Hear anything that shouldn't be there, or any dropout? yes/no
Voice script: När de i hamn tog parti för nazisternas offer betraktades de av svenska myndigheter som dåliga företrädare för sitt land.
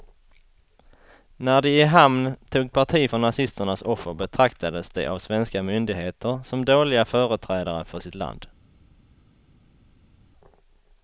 no